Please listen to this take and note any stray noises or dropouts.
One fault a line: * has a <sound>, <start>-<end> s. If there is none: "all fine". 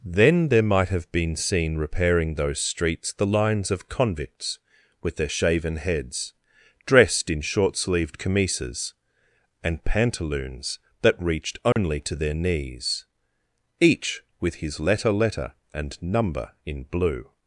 * has a dropout, 11.7-11.8 s